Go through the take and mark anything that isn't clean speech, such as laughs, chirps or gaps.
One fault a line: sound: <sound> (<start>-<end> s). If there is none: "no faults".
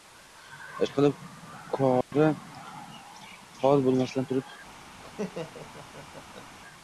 sound: dropout (2.0-2.1 s)
sound: laugh (5.0-6.5 s)